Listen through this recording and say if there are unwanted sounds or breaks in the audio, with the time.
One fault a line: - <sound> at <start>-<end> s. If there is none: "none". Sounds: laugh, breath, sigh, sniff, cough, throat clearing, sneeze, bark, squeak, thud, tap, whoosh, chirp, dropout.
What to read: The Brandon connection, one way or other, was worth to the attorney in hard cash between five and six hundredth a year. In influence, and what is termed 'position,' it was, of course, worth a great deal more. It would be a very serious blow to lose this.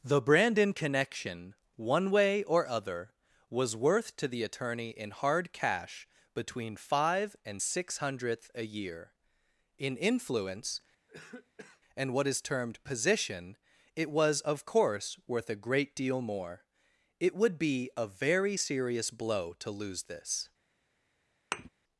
- cough at 11.1-11.8 s
- thud at 21.5-21.7 s